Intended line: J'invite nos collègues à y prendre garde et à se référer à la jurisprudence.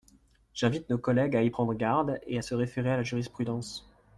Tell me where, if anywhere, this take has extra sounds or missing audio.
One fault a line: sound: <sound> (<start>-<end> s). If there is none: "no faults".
no faults